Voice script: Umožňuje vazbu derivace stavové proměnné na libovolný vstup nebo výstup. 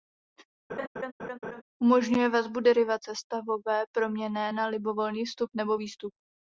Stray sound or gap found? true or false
true